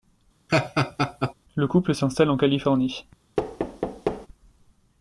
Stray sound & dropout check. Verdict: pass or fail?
fail